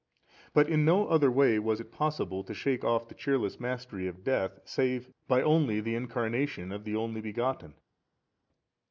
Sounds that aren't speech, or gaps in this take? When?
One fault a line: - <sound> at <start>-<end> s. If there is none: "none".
none